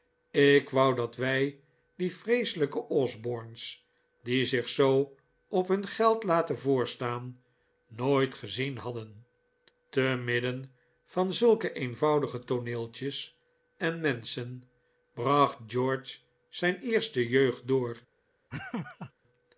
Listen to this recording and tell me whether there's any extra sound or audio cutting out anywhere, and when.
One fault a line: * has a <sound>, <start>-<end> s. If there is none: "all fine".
* has a laugh, 18.5-19.1 s